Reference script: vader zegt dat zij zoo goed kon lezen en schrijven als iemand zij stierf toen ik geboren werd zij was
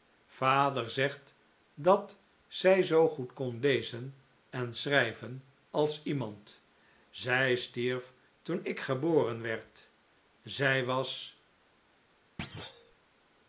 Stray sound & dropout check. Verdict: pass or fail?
fail